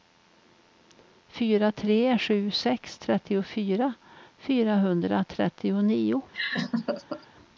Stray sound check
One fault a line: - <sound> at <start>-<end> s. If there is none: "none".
- laugh at 6.3-7.3 s